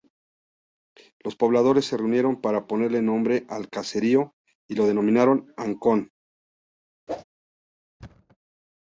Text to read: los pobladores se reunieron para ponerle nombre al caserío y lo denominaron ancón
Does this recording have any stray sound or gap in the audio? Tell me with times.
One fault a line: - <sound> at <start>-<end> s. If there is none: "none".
- whoosh at 7.1-7.2 s
- thud at 8.0-8.4 s